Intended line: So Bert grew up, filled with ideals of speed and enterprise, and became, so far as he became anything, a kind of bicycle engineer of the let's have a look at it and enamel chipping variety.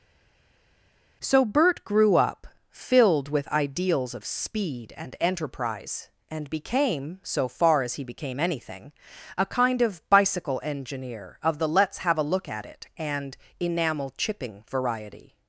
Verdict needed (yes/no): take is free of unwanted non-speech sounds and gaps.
yes